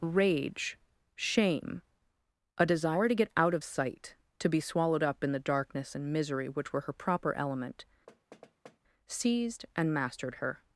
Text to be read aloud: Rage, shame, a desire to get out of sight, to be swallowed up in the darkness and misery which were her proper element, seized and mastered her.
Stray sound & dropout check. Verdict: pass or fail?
fail